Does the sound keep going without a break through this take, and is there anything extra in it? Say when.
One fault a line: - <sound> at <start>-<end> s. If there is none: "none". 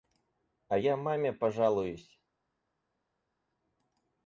none